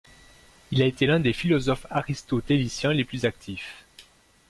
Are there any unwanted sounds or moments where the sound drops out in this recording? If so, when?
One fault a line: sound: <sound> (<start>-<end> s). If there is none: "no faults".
no faults